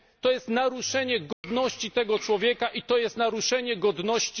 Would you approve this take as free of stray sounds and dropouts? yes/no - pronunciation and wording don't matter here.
no